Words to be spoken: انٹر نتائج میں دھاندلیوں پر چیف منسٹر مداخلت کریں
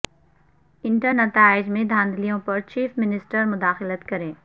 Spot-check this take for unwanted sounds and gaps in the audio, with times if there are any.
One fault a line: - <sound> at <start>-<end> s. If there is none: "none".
none